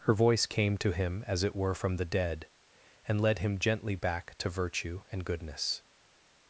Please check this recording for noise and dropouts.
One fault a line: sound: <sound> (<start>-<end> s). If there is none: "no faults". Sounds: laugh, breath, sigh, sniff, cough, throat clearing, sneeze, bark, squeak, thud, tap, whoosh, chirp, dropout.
no faults